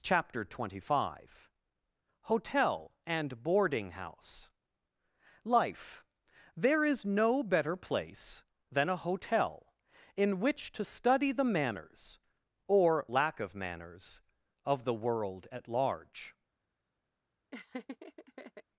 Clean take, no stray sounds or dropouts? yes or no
no